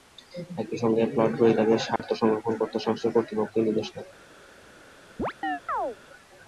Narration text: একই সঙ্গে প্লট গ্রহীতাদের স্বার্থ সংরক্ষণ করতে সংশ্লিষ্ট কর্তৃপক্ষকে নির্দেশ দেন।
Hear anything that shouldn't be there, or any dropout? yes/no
yes